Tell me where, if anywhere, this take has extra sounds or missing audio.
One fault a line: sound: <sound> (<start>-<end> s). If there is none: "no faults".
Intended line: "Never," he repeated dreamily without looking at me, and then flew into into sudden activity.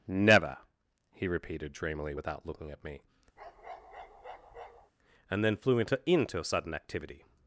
sound: bark (3.4-4.9 s)